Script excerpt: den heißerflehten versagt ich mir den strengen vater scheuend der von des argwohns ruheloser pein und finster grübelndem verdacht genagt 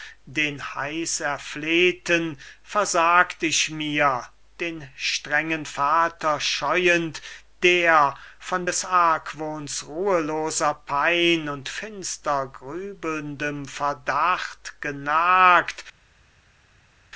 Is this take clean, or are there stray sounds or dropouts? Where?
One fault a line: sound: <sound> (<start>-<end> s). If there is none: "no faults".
no faults